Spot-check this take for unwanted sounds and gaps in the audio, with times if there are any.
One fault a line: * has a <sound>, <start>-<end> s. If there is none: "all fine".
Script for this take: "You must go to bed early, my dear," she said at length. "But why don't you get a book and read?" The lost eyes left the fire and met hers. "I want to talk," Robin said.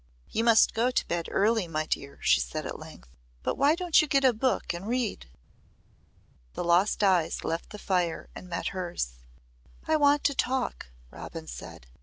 all fine